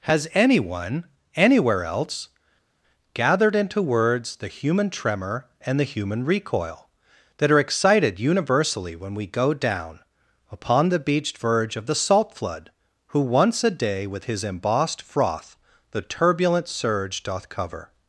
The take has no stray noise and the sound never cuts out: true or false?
true